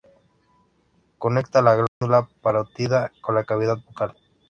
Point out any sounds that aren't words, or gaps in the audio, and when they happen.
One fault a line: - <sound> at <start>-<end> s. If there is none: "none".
- dropout at 1.9-2.0 s